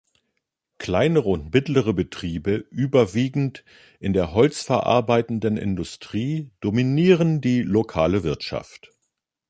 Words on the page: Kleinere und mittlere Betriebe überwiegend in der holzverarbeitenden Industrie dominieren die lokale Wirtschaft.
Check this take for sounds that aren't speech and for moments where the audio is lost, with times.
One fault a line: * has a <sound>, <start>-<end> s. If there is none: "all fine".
all fine